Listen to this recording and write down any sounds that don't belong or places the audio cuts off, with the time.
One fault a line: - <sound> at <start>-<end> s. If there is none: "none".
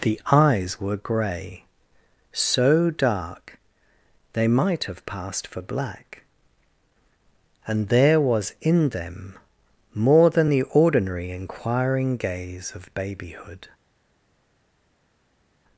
none